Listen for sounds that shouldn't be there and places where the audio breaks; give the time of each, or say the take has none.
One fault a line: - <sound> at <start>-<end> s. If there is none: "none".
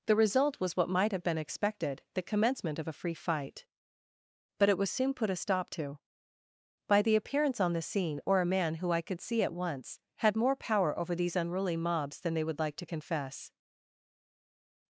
none